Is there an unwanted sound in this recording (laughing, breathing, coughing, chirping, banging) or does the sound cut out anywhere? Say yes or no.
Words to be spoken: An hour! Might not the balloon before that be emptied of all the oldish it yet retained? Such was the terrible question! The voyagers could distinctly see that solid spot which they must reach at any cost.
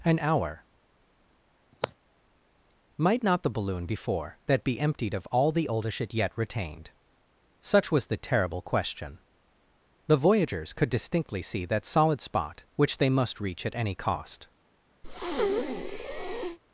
yes